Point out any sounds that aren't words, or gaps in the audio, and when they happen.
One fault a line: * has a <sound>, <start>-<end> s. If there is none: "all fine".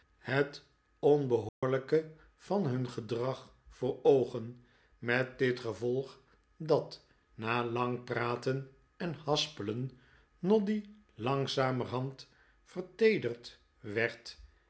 * has a dropout, 1.5-1.6 s